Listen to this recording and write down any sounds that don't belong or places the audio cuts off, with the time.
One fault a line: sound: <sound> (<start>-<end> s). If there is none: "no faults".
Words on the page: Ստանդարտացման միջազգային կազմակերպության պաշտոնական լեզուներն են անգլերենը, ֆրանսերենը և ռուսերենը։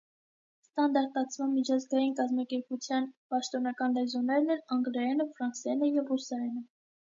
no faults